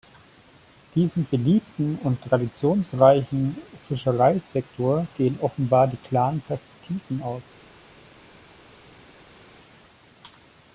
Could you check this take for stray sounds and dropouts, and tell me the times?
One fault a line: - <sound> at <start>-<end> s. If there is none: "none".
none